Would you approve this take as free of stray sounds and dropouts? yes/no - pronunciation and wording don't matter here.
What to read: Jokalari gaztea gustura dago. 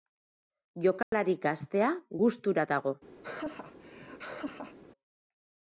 no